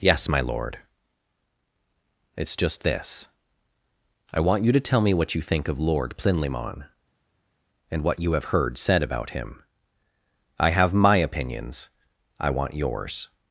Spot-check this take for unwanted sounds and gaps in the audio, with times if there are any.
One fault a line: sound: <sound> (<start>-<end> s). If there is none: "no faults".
no faults